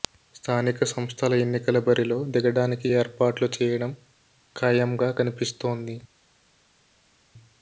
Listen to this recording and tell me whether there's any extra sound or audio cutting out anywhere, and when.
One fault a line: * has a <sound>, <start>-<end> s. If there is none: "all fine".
all fine